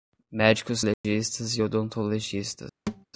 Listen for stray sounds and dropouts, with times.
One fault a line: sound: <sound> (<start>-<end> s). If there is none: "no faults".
sound: dropout (0.9-1.0 s)
sound: thud (2.9-3.1 s)